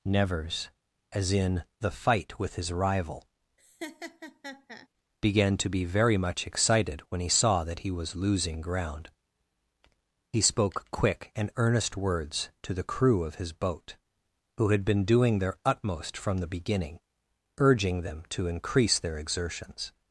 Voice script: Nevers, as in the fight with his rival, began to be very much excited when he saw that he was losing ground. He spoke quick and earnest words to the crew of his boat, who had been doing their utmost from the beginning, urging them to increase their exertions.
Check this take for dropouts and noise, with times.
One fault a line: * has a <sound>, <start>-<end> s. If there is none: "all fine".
* has a laugh, 3.6-4.9 s